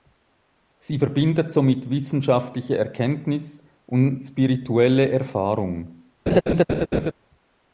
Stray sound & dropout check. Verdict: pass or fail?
fail